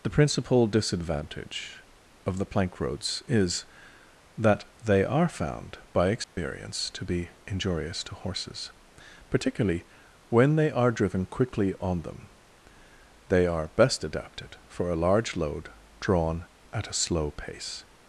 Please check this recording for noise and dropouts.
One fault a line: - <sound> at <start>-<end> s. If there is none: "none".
- dropout at 6.2-6.4 s